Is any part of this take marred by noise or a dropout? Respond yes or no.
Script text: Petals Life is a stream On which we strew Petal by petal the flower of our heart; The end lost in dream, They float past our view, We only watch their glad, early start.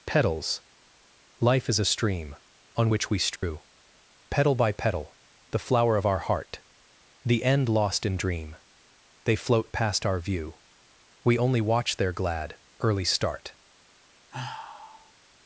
yes